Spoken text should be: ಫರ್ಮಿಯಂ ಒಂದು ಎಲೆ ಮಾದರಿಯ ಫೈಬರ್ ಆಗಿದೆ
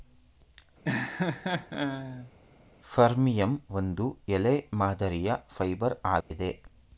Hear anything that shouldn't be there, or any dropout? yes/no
yes